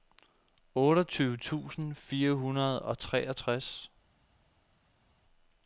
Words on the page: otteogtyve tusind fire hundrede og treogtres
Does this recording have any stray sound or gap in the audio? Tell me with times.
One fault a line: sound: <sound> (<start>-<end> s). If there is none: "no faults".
no faults